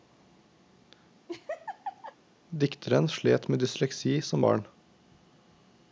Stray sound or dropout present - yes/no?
yes